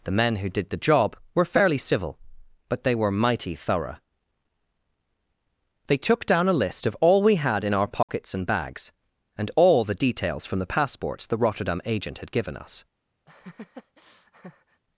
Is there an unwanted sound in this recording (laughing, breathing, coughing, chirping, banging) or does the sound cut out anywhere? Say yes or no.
yes